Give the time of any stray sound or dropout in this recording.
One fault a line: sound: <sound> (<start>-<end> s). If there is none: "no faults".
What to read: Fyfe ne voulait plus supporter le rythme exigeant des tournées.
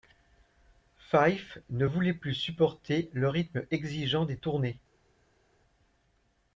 no faults